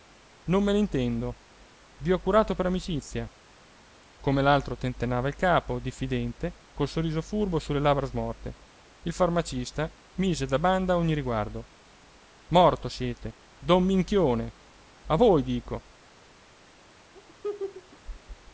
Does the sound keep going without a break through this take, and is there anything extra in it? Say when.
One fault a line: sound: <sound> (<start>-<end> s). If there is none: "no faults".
sound: laugh (17.1-18.0 s)